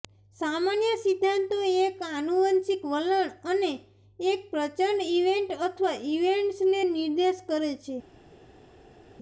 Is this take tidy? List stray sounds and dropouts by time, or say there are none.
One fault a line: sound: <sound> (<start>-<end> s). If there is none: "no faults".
no faults